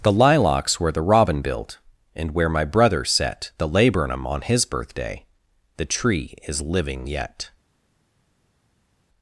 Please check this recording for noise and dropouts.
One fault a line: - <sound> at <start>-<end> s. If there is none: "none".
none